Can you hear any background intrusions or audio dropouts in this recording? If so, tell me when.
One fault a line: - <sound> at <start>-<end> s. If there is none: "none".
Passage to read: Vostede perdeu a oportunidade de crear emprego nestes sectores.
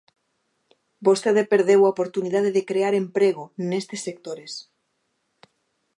none